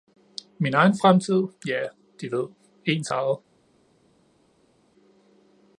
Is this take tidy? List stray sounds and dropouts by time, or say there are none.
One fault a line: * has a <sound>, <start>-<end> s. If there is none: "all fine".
all fine